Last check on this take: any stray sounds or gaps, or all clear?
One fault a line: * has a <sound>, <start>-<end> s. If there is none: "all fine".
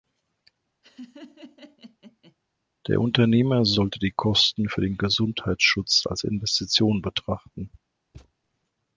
* has a laugh, 0.8-2.4 s
* has a thud, 8.1-8.3 s